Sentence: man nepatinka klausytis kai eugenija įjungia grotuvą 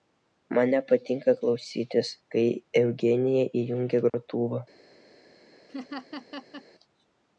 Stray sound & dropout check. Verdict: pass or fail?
fail